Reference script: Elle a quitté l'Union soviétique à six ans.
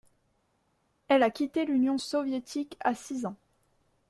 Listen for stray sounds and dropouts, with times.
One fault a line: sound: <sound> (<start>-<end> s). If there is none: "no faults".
no faults